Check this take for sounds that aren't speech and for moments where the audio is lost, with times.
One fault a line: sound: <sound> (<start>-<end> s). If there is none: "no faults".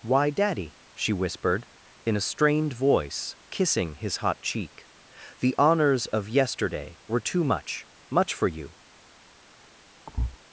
sound: thud (10.1-10.4 s)